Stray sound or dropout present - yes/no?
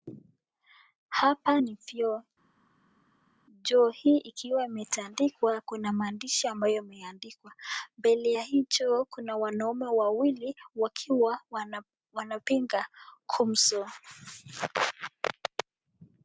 no